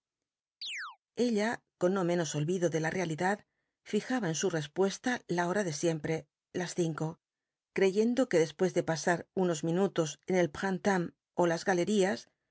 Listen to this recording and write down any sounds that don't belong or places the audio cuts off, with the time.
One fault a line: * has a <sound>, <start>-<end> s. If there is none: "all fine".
* has a chirp, 0.6-1.0 s